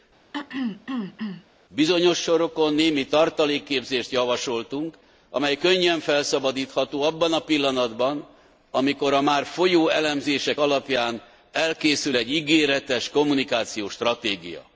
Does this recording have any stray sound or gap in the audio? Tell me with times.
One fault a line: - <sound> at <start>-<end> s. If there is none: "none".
- throat clearing at 0.3-1.4 s